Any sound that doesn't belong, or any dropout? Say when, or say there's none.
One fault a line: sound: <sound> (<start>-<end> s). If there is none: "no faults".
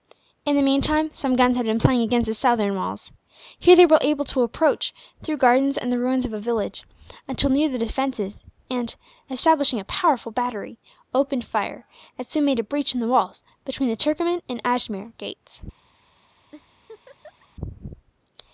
sound: laugh (16.5-17.5 s)